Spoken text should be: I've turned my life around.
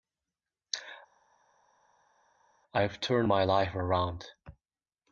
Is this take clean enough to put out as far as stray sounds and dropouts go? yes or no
yes